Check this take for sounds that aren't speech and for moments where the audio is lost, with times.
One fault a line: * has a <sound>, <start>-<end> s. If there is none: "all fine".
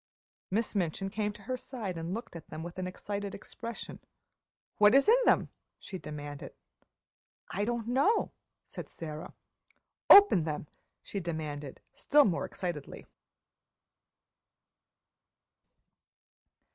all fine